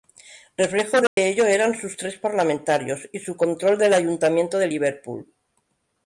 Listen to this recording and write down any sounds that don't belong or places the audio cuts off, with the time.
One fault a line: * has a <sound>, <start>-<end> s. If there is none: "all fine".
* has a dropout, 1.1-1.2 s